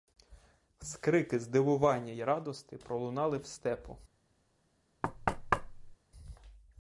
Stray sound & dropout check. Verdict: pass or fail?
fail